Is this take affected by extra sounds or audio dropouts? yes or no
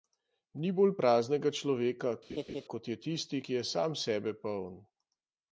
yes